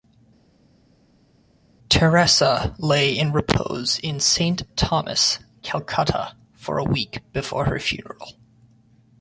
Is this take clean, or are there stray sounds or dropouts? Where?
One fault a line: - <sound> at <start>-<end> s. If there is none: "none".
none